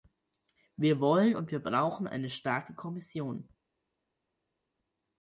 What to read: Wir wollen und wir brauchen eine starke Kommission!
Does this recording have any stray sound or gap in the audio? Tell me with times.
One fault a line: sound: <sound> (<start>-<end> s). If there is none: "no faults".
no faults